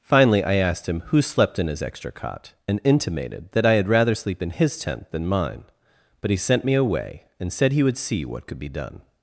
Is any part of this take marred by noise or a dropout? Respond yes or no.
no